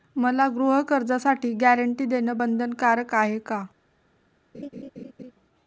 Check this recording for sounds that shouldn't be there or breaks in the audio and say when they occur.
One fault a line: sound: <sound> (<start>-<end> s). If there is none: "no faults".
sound: laugh (4.5-5.3 s)